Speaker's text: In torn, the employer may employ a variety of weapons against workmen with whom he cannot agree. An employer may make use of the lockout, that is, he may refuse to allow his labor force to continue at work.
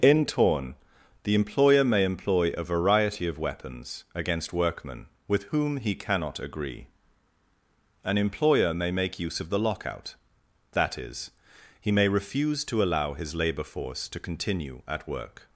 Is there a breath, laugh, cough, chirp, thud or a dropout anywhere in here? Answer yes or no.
no